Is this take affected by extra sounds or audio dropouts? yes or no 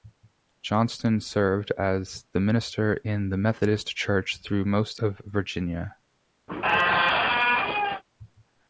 yes